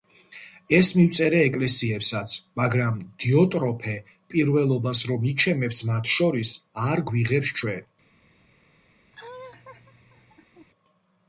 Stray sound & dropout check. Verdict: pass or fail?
fail